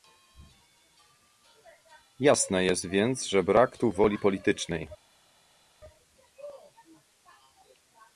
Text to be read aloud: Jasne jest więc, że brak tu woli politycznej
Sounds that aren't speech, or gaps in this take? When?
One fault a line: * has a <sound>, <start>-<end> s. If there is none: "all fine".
all fine